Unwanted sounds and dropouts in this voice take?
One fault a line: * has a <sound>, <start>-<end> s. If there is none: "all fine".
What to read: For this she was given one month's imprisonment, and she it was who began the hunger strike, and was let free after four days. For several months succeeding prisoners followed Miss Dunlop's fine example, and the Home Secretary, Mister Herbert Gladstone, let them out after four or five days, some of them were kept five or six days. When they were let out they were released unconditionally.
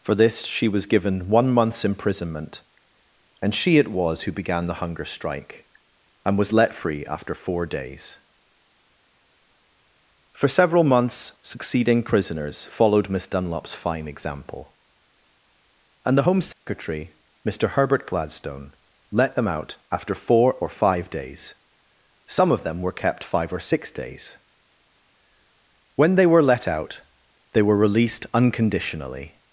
* has a dropout, 16.5-16.7 s